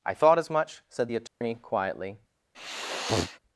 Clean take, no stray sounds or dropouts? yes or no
no